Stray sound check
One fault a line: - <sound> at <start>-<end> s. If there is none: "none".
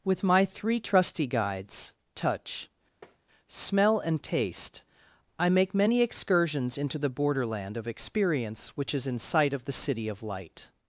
- tap at 3.0-3.2 s